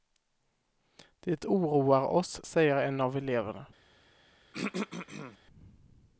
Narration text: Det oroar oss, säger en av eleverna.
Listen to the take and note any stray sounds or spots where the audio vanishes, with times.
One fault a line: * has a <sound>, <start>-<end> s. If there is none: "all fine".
* has a throat clearing, 4.5-5.4 s